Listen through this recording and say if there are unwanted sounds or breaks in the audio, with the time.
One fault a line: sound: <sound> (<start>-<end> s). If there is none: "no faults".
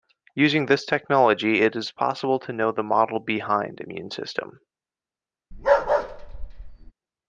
sound: bark (5.5-6.9 s)